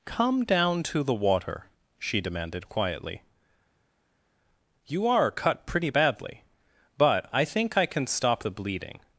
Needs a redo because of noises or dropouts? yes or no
no